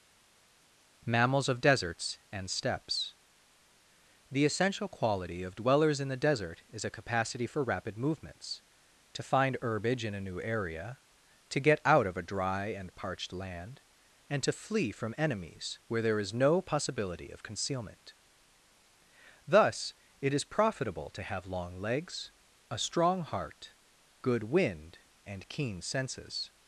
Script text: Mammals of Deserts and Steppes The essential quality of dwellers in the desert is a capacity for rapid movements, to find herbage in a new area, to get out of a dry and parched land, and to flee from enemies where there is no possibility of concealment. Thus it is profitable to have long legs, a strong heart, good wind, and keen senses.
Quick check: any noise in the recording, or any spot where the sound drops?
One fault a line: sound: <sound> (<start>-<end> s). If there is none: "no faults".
no faults